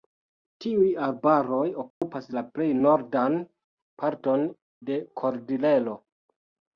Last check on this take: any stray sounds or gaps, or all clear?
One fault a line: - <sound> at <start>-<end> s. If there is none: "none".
- dropout at 1.9-2.0 s